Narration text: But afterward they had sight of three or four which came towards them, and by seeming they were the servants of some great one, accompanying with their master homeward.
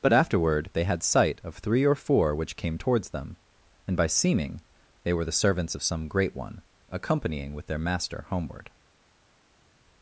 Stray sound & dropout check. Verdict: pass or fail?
pass